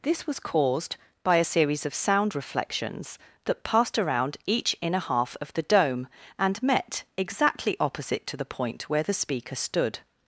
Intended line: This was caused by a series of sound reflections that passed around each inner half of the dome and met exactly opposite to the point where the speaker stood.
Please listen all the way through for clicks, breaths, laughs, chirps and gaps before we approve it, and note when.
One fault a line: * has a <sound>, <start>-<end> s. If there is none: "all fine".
all fine